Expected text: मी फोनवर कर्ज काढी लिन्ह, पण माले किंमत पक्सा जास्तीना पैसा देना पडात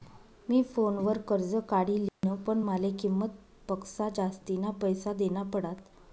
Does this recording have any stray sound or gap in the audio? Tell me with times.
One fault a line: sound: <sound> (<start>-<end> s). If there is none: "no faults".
sound: dropout (2.1-2.2 s)